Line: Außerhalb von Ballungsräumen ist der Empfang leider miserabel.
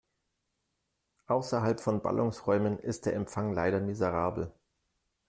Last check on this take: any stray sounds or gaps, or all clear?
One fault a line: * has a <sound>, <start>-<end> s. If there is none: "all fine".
all fine